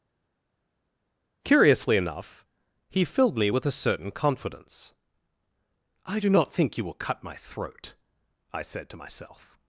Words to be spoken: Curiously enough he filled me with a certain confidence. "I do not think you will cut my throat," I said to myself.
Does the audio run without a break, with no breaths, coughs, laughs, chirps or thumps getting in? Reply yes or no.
yes